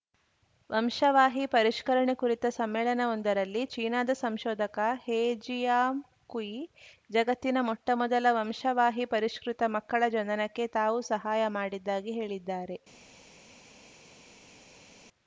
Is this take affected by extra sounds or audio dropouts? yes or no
no